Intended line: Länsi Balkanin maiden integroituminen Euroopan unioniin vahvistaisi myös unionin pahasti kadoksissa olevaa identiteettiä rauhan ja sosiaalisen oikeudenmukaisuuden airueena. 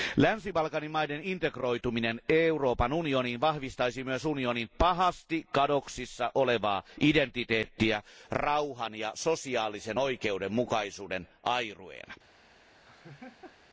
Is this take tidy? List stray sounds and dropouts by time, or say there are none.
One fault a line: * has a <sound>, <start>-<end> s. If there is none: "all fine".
* has a laugh, 12.8-13.6 s